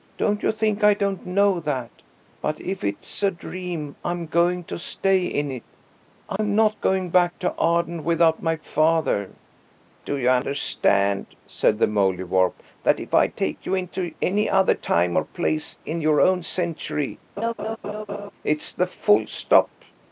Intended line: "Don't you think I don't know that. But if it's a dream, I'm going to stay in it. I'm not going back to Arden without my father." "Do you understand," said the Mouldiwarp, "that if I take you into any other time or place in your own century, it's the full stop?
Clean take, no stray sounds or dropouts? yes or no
no